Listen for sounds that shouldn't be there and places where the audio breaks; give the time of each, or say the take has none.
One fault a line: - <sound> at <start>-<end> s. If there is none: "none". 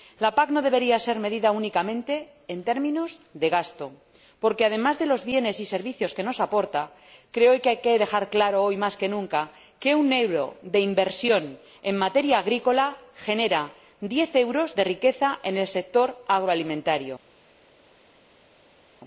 none